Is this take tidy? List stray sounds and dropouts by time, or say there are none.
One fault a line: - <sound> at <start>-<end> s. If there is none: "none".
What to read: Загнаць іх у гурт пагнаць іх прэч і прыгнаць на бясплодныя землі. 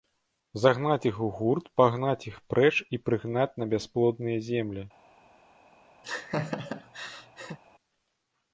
- laugh at 6.0-7.6 s